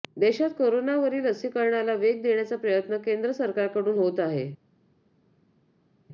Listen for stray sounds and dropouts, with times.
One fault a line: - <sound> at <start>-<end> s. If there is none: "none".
none